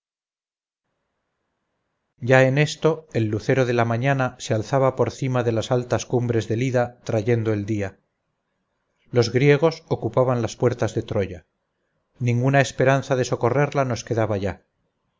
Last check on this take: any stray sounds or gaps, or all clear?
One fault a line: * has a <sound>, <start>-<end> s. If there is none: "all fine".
all fine